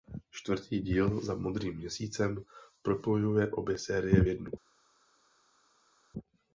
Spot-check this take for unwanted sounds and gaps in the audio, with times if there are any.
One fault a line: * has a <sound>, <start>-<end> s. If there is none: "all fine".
all fine